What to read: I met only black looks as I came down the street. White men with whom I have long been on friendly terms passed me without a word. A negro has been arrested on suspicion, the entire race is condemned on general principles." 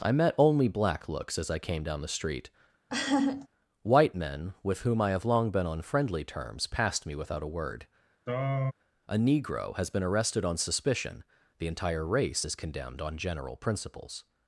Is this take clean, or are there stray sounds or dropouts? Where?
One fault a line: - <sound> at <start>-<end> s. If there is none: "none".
- laugh at 2.9-3.5 s
- throat clearing at 8.3-8.7 s